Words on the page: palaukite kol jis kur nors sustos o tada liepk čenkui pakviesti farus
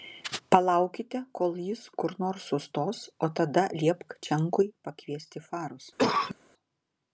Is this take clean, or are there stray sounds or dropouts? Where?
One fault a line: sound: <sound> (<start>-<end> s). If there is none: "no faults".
sound: cough (6.0-6.3 s)